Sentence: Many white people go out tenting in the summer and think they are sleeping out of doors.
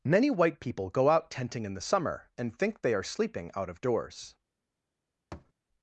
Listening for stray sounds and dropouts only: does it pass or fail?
fail